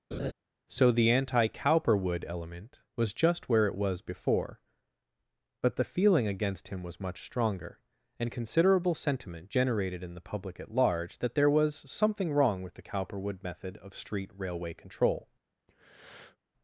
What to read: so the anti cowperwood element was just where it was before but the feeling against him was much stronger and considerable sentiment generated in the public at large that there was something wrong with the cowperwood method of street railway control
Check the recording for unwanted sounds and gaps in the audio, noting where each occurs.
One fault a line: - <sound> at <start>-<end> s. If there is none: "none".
- laugh at 0.1-0.3 s
- breath at 15.7-16.4 s